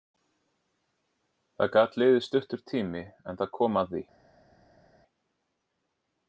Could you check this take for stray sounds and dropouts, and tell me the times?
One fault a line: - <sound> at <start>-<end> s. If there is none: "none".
none